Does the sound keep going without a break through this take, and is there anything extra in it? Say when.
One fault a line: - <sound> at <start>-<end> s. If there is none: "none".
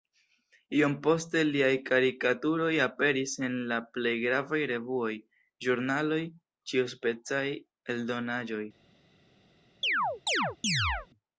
- chirp at 9.8-11.1 s